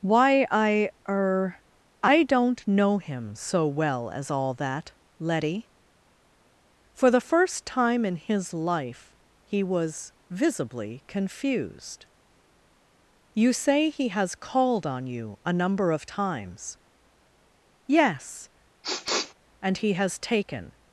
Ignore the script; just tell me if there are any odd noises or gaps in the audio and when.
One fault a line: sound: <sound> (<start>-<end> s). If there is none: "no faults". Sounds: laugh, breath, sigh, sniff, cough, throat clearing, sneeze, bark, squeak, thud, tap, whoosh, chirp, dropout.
sound: sniff (18.8-19.3 s)